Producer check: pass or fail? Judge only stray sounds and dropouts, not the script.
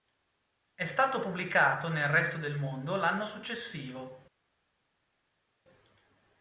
pass